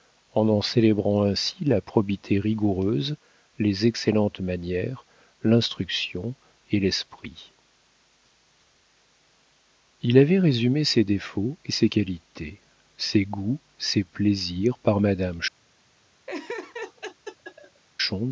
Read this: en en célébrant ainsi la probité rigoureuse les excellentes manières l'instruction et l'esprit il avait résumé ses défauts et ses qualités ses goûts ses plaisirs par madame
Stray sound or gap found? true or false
true